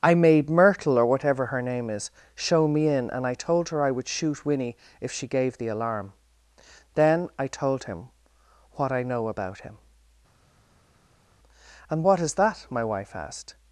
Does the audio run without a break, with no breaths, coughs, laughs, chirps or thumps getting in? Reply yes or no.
yes